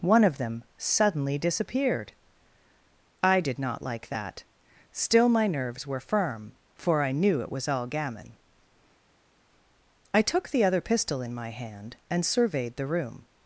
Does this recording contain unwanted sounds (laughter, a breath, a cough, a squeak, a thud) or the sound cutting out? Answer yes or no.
no